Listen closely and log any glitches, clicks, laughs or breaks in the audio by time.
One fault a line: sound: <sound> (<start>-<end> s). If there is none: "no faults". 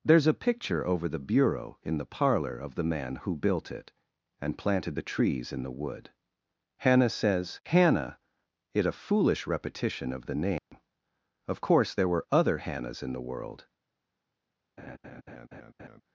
sound: dropout (10.6-10.7 s)
sound: laugh (14.8-16.0 s)